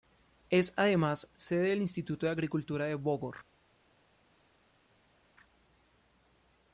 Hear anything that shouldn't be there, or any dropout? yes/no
no